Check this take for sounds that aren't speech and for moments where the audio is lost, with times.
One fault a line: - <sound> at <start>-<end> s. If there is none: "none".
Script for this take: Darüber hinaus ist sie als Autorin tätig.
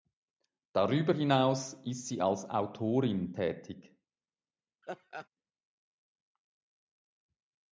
- laugh at 4.8-5.3 s